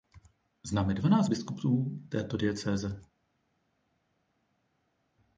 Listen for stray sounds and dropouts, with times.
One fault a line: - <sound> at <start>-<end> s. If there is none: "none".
none